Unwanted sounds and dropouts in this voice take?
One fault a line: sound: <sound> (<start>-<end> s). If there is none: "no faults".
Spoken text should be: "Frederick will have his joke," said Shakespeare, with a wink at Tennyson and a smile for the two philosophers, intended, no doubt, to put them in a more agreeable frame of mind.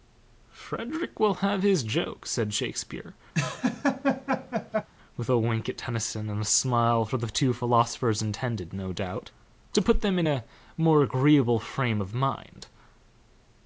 sound: laugh (3.3-4.9 s)